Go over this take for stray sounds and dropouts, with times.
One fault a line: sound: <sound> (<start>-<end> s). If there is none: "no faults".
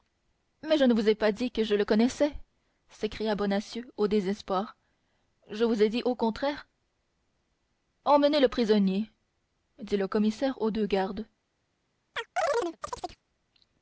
sound: chirp (12.1-13.2 s)